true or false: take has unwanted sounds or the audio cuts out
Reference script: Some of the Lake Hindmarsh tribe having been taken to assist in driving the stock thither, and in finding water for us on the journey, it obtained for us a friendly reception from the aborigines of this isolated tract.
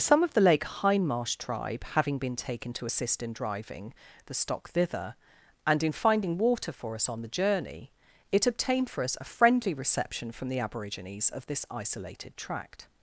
false